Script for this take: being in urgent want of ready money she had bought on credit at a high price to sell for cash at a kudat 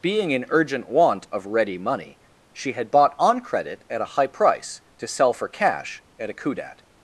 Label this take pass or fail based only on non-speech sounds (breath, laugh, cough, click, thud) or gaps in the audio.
pass